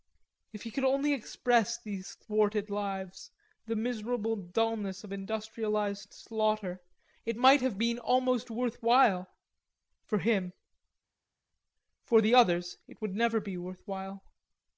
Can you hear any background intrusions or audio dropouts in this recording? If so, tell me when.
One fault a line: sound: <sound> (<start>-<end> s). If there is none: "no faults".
no faults